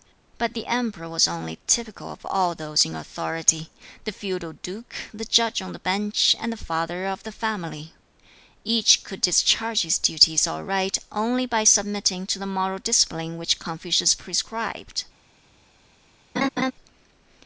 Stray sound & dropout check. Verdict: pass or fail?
fail